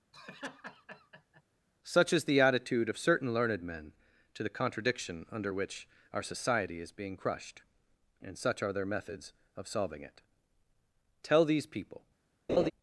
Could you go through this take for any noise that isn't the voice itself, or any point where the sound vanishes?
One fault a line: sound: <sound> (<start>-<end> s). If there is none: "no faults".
sound: laugh (0.1-1.4 s)
sound: laugh (12.5-12.7 s)